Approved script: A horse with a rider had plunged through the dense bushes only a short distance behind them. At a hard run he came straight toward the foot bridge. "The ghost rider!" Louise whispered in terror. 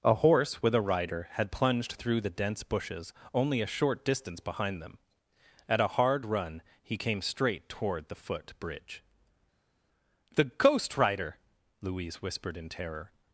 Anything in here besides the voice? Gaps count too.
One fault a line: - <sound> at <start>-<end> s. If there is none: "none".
none